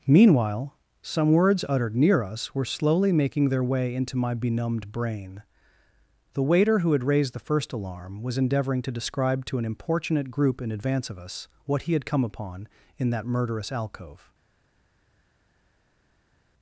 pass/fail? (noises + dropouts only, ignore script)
pass